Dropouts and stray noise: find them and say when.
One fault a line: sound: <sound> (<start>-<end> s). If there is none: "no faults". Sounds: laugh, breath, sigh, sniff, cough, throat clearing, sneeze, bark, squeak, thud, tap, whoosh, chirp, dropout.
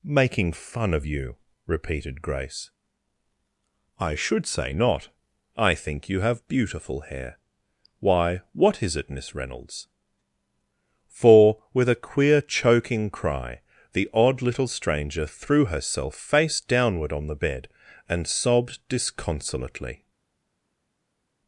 no faults